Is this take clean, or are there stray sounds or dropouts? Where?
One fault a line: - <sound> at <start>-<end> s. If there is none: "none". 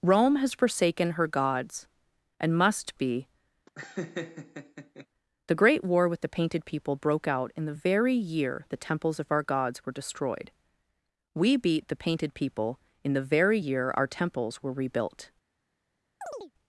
- laugh at 3.7-5.1 s
- chirp at 16.2-16.5 s